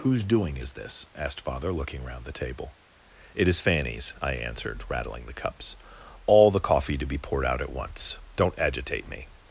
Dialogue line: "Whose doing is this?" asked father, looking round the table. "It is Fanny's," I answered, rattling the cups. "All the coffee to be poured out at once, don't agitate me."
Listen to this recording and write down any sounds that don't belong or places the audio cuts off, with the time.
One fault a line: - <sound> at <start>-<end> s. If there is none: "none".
none